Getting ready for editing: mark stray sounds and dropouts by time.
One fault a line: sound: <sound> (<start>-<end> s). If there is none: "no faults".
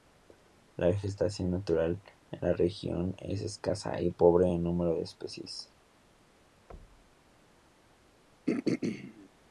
sound: thud (6.7-7.3 s)
sound: throat clearing (8.5-9.3 s)